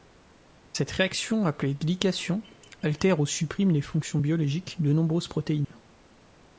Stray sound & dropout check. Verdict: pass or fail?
fail